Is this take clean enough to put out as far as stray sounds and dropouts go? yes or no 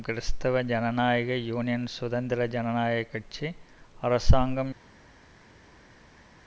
yes